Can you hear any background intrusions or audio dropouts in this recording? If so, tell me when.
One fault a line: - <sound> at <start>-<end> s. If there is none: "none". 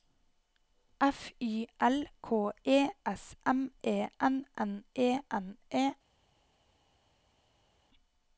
none